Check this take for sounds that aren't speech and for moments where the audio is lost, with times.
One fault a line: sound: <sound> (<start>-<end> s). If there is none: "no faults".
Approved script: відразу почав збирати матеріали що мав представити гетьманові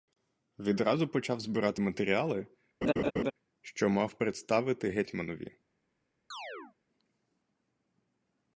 sound: laugh (2.8-3.3 s)
sound: chirp (6.3-6.8 s)